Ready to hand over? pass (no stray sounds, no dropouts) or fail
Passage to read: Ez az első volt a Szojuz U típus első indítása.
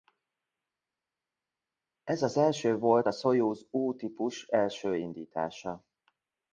pass